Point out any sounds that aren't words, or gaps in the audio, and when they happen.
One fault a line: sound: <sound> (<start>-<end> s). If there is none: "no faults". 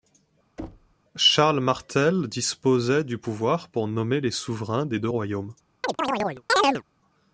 sound: thud (0.6-1.0 s)
sound: chirp (5.8-6.8 s)